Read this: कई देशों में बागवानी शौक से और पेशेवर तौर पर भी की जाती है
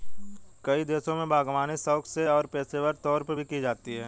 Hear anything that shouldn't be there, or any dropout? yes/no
no